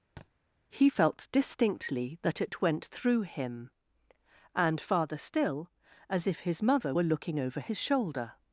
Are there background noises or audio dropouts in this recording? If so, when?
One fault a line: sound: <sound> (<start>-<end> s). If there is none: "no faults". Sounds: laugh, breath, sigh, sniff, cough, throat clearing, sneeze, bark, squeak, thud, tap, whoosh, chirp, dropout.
sound: thud (0.2-0.3 s)